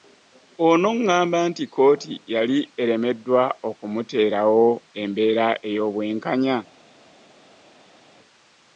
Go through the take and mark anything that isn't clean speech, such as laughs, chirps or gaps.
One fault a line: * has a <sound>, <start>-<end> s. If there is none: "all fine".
all fine